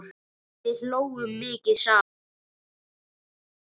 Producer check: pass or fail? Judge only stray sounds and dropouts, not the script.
pass